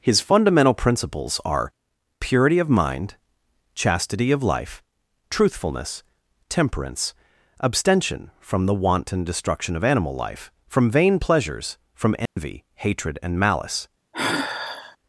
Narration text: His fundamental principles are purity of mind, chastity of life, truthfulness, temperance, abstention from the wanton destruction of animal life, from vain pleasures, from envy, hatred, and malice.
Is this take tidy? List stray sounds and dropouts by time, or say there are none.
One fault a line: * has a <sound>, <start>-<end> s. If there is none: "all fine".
* has a dropout, 12.3-12.4 s
* has a sigh, 14.1-15.0 s